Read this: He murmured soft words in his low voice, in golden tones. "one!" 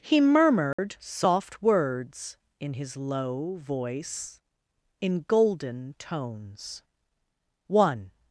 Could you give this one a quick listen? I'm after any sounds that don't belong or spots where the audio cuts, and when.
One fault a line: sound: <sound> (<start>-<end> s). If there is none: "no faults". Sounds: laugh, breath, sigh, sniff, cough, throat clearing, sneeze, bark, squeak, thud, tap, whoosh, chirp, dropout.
sound: dropout (0.7-0.8 s)